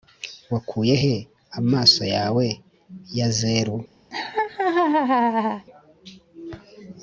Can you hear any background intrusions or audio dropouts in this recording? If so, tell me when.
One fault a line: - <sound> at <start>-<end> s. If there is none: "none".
- laugh at 4.1-5.7 s